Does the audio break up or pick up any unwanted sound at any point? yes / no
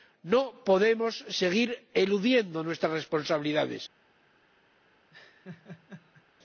yes